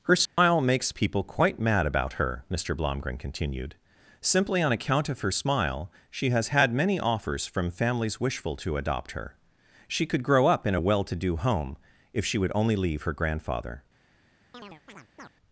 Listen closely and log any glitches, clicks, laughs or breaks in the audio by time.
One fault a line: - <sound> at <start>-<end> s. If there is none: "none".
- dropout at 0.3-0.4 s
- chirp at 14.5-15.3 s